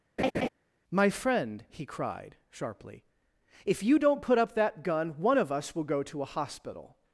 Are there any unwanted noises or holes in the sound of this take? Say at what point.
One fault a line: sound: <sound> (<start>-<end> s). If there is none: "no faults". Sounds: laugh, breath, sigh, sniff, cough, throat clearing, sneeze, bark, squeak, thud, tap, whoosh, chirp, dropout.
sound: laugh (0.2-0.5 s)